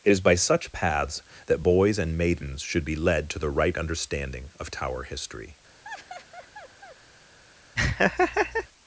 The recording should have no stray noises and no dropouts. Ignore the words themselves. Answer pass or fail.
fail